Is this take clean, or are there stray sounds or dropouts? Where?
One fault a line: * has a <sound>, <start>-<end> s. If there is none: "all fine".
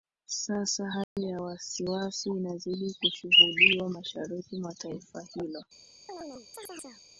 * has a dropout, 1.0-1.2 s
* has a chirp, 6.1-7.0 s